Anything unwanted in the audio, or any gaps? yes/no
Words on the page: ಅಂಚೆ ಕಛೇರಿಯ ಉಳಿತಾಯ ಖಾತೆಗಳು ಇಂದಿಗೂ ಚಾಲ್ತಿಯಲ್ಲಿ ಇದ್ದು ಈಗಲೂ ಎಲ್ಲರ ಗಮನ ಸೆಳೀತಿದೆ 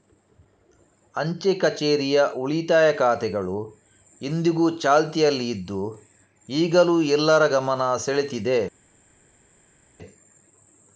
no